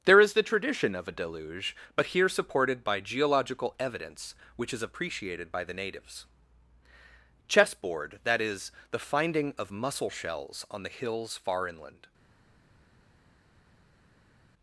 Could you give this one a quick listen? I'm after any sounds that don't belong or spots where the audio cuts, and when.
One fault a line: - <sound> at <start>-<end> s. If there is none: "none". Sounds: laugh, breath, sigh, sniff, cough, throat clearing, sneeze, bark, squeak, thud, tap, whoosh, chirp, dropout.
none